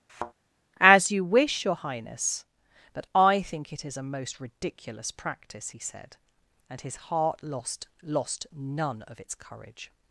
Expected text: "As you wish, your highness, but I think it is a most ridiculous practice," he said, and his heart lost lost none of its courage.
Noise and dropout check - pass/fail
fail